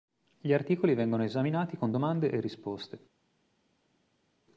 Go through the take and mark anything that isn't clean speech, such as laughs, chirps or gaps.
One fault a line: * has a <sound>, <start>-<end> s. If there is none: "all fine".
all fine